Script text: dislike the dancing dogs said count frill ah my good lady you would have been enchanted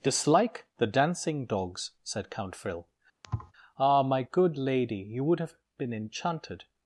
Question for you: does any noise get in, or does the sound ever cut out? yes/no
yes